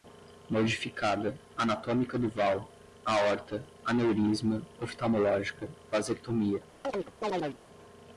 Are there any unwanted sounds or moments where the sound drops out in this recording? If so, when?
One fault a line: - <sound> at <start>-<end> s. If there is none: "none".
- chirp at 6.8-7.6 s